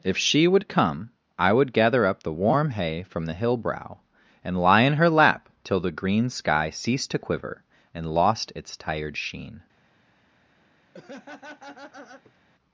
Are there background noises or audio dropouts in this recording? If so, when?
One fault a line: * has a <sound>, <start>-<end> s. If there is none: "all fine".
* has a laugh, 10.9-12.4 s